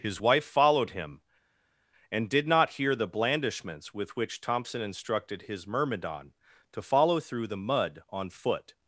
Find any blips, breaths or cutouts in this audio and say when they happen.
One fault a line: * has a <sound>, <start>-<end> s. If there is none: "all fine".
all fine